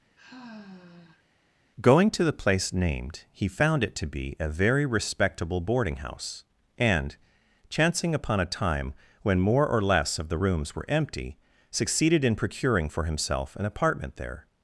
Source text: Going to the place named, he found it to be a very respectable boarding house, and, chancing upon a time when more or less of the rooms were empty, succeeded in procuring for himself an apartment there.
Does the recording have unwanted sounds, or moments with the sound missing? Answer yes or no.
yes